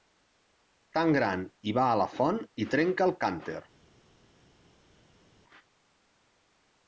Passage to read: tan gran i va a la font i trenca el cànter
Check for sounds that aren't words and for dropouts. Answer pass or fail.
pass